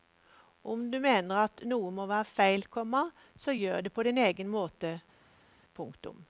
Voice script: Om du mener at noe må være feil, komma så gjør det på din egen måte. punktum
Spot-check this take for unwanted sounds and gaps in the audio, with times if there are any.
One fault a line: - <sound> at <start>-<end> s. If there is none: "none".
none